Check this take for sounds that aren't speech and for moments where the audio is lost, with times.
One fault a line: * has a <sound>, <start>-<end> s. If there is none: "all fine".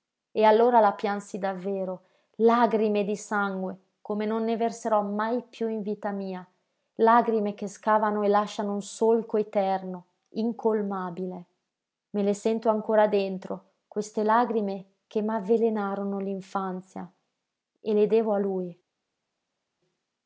all fine